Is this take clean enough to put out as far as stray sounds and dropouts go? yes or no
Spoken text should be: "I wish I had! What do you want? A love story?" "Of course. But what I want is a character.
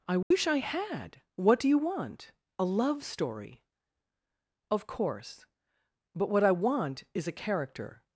no